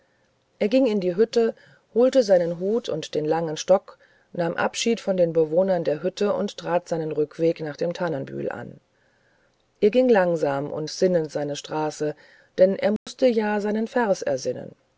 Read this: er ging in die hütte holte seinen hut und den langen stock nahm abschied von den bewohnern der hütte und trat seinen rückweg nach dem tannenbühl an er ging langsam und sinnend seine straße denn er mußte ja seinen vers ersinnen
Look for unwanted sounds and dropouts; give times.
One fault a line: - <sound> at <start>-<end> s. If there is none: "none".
- dropout at 13.0-13.1 s